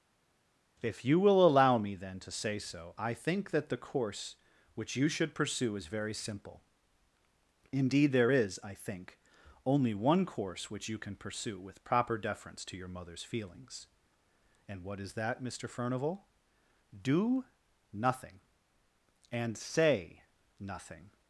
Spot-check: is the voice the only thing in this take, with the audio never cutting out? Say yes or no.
yes